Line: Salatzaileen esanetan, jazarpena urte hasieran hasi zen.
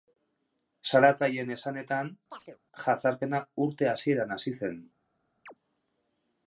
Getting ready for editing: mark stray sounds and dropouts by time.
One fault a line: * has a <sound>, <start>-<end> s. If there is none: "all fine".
* has a chirp, 2.3-2.6 s
* has a chirp, 5.5-5.5 s